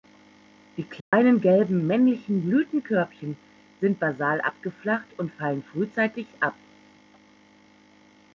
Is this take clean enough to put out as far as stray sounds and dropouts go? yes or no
no